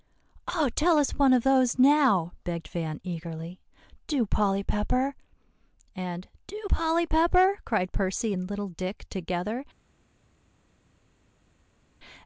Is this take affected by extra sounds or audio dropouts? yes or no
no